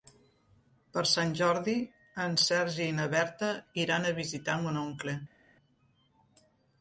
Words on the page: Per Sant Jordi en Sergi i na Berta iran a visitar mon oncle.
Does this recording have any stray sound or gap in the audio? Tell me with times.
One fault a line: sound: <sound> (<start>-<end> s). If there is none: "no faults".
no faults